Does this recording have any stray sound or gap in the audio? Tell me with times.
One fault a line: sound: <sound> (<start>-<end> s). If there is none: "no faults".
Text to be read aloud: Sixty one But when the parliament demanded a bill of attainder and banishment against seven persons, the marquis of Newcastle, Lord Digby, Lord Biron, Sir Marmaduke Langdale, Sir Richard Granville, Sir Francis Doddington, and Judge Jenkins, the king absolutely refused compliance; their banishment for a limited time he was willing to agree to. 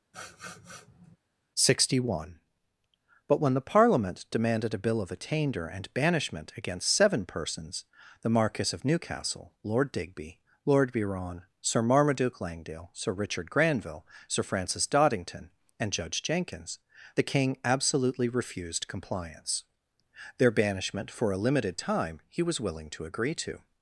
sound: sniff (0.1-1.2 s)